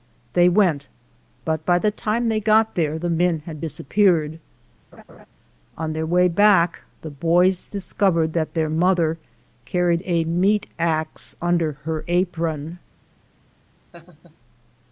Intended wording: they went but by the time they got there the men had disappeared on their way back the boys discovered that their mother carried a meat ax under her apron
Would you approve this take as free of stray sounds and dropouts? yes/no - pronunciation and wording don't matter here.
no